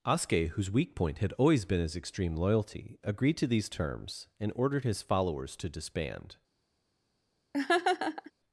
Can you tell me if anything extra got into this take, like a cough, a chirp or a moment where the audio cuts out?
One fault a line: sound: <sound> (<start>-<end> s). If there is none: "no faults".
sound: laugh (7.5-8.3 s)